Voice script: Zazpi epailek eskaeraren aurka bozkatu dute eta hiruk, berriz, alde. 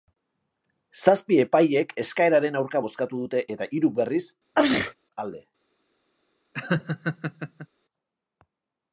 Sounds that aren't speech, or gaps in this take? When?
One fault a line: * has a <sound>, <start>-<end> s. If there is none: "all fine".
* has a sneeze, 4.5-4.9 s
* has a laugh, 6.5-7.7 s